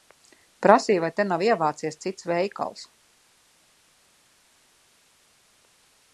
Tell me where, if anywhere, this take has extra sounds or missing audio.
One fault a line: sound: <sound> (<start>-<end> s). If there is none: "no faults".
no faults